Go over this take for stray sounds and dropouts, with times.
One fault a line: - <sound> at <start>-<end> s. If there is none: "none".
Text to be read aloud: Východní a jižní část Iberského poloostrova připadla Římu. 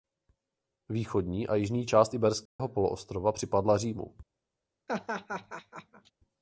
- dropout at 2.5-2.6 s
- laugh at 4.9-6.1 s